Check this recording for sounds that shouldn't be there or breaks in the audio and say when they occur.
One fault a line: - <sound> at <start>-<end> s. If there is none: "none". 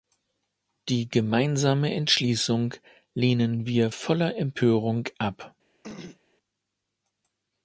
- throat clearing at 5.8-6.2 s